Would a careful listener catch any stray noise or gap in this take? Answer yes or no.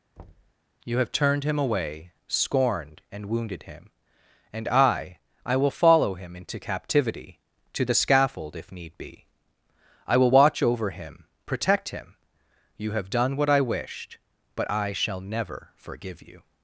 yes